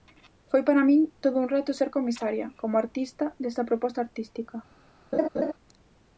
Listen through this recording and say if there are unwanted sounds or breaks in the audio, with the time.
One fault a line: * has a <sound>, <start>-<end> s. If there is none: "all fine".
* has a laugh, 5.1-5.5 s